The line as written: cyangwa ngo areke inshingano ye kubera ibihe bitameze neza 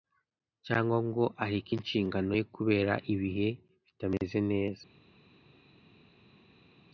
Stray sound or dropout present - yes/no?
no